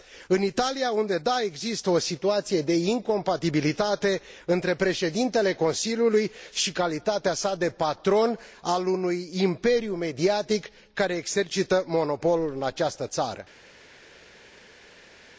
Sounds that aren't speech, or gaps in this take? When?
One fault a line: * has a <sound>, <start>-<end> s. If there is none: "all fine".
all fine